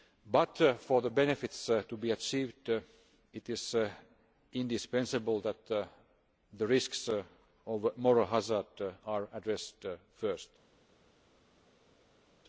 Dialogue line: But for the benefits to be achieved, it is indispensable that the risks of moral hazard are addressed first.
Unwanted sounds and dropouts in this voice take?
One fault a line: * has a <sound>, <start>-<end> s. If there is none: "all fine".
all fine